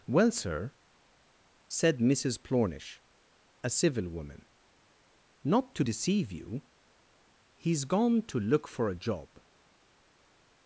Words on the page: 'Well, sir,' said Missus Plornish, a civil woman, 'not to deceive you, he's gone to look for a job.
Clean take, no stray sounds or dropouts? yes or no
yes